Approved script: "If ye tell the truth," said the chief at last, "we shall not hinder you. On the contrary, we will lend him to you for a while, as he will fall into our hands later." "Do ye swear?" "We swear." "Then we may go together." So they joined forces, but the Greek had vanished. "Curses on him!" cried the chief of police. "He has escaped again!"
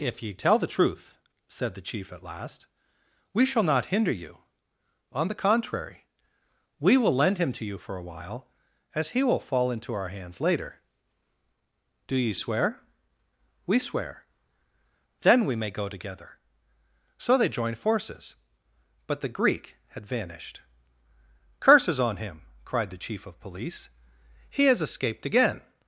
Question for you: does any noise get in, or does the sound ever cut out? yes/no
no